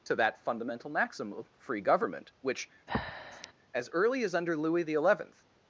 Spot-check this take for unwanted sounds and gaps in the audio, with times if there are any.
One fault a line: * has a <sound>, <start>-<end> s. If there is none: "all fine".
* has a breath, 2.9-3.5 s